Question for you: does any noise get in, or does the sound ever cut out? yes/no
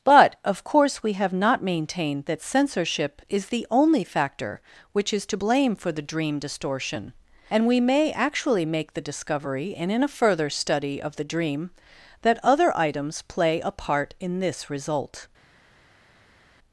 no